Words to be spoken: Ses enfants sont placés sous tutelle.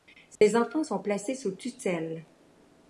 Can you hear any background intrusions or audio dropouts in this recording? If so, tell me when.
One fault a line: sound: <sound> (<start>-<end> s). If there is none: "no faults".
sound: dropout (0.4-0.4 s)